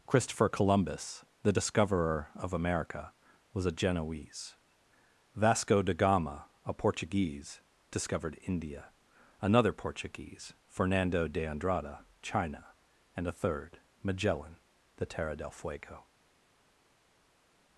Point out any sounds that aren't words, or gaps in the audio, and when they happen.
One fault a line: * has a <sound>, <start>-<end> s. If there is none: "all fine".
all fine